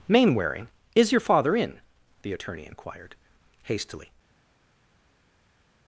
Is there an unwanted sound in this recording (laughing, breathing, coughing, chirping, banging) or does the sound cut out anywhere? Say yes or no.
no